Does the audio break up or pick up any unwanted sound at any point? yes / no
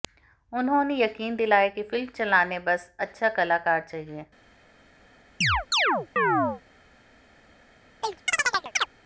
yes